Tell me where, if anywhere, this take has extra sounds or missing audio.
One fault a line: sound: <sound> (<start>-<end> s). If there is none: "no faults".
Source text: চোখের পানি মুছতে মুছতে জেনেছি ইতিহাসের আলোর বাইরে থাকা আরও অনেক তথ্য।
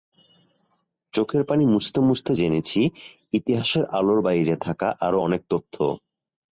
no faults